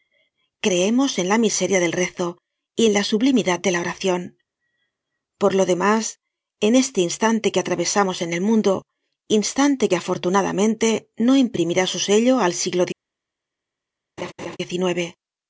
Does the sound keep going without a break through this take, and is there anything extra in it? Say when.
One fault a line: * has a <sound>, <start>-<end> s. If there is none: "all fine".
* has a laugh, 14.2-14.6 s